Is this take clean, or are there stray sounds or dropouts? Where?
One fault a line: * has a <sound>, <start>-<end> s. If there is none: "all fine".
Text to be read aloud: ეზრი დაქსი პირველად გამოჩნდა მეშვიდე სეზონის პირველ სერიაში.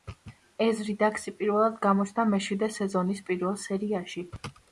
all fine